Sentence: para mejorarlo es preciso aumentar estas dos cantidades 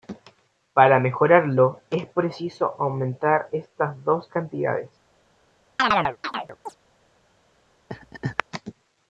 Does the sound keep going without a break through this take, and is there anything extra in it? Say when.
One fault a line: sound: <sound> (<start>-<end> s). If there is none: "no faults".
sound: chirp (5.8-6.8 s)
sound: laugh (7.9-8.4 s)